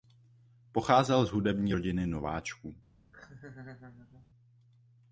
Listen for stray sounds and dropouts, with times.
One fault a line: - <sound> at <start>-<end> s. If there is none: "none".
- laugh at 3.1-4.3 s